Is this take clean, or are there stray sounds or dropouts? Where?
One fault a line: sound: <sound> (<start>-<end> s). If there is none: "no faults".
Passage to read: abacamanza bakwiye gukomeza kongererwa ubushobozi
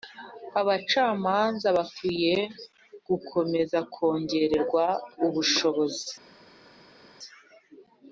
no faults